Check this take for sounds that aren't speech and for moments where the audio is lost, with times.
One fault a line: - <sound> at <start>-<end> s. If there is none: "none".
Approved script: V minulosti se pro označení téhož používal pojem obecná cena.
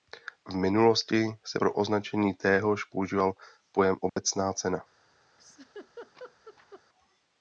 - dropout at 4.1-4.2 s
- laugh at 5.4-6.8 s